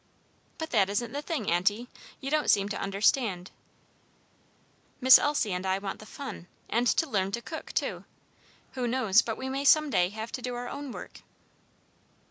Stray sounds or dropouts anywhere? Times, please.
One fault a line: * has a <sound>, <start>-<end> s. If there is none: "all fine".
all fine